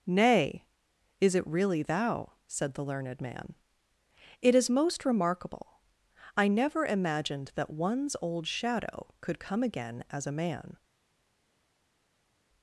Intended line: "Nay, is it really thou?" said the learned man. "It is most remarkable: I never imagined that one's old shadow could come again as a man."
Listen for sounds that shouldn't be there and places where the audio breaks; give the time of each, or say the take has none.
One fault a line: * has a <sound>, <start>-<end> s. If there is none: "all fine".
all fine